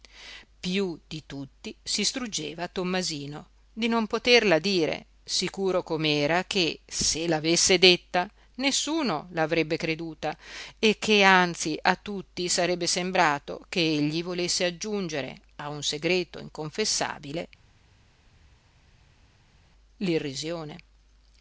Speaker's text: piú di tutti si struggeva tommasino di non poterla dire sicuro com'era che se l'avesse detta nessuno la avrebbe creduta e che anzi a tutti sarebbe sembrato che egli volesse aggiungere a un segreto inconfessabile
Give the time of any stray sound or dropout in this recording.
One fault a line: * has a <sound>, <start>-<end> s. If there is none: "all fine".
all fine